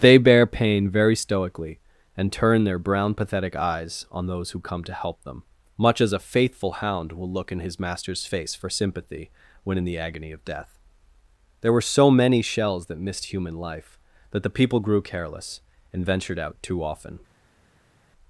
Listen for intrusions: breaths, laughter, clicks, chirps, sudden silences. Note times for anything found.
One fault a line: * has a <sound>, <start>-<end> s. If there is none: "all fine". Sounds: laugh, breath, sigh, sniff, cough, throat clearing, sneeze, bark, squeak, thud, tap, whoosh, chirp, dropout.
all fine